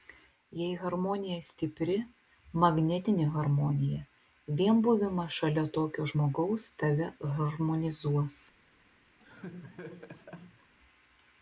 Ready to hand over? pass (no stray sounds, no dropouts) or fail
fail